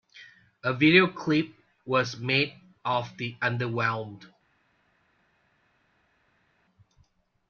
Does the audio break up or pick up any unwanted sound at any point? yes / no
no